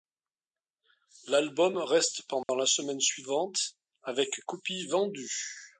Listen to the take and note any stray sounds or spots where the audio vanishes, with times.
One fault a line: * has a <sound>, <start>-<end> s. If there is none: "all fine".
* has a dropout, 2.4-2.5 s